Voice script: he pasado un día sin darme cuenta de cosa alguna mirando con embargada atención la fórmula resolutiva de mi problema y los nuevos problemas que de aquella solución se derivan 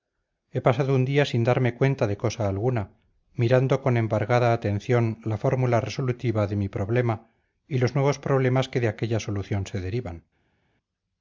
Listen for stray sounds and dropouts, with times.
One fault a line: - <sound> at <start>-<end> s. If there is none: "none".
none